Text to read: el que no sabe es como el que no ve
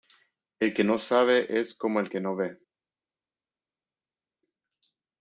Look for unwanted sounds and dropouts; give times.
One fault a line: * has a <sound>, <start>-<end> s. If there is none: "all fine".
all fine